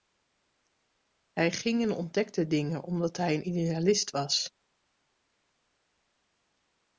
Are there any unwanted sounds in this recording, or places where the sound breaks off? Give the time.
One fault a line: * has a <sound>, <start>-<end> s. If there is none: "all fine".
all fine